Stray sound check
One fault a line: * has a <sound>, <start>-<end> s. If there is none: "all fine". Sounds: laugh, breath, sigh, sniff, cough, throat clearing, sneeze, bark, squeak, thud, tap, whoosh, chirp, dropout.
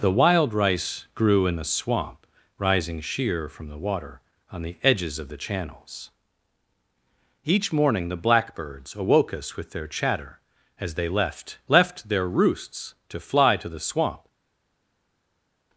all fine